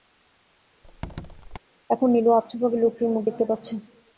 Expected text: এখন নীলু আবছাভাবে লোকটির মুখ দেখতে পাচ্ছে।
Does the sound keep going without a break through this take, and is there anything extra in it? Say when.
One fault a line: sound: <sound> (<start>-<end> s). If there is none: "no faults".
sound: squeak (0.8-1.6 s)